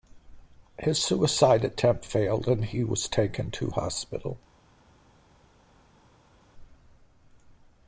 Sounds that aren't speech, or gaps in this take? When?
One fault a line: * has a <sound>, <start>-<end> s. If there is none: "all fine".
all fine